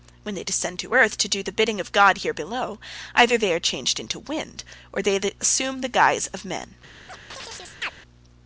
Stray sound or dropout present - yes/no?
yes